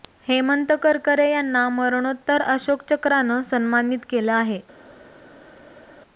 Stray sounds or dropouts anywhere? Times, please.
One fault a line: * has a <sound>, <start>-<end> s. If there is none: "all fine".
all fine